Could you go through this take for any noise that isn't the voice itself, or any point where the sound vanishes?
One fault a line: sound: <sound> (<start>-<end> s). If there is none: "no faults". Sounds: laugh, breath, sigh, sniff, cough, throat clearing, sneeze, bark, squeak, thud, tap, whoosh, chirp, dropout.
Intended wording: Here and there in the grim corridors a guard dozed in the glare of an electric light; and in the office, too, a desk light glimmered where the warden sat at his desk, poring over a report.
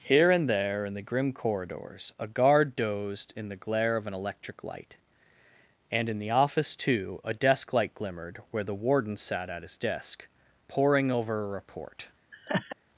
sound: laugh (12.3-12.8 s)